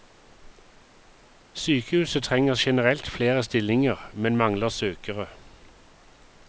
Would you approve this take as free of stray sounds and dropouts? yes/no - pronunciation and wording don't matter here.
yes